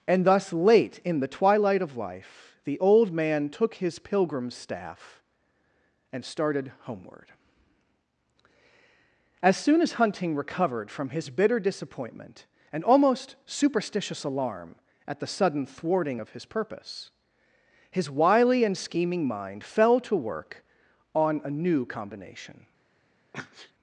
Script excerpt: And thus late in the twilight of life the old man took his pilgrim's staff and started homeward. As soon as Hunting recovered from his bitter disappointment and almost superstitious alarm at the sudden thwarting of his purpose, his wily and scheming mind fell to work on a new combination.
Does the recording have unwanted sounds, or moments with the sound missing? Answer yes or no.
yes